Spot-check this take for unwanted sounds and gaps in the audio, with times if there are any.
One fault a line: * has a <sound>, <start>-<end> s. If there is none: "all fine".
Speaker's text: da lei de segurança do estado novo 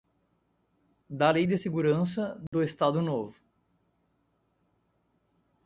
* has a dropout, 2.5-2.5 s